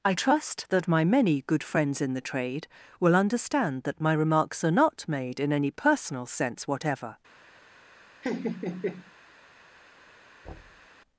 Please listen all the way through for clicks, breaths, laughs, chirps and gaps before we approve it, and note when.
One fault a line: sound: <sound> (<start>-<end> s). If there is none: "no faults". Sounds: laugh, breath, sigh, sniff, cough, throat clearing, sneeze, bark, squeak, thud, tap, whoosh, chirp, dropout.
sound: laugh (8.2-9.1 s)
sound: thud (10.4-10.9 s)